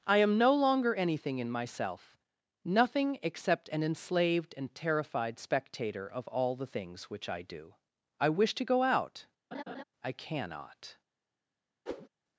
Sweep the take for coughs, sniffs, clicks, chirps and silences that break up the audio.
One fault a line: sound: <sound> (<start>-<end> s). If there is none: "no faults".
sound: laugh (9.5-9.8 s)
sound: whoosh (11.9-12.1 s)